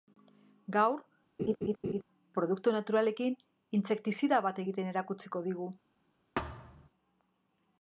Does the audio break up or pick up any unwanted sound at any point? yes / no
yes